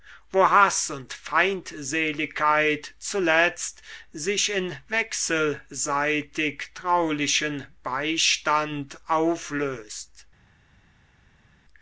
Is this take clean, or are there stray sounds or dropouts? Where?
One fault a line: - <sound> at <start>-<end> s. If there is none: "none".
none